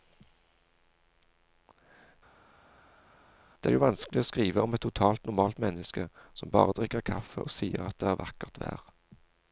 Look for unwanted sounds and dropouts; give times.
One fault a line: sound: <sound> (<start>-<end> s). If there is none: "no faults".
no faults